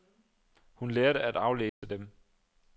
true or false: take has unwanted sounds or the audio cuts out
true